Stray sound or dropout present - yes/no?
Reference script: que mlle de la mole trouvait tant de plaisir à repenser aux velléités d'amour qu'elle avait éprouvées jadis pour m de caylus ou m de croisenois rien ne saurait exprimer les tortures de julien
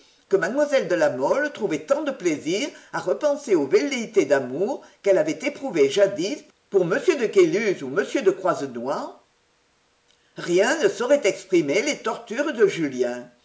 no